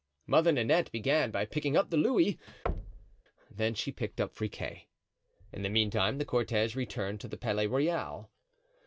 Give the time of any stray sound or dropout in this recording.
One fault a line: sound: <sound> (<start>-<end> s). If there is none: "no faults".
sound: thud (2.7-3.2 s)